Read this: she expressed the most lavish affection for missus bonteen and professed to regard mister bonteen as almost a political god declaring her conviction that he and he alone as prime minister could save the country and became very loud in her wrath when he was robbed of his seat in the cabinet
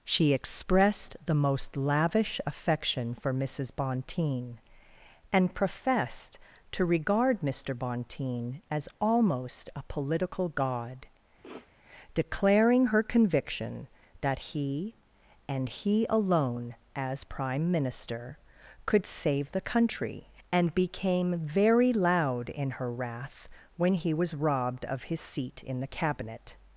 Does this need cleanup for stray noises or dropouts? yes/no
yes